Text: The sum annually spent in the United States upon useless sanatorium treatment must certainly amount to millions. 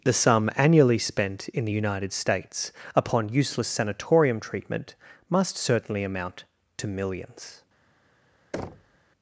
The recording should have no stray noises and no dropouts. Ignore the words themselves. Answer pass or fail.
fail